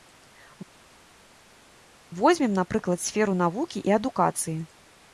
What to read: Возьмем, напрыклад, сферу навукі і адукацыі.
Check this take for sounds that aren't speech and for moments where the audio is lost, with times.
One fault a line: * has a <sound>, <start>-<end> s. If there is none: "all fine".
all fine